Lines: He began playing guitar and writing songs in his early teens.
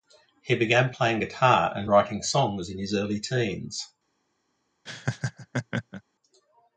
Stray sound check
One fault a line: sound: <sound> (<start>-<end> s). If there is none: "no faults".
sound: laugh (4.9-6.0 s)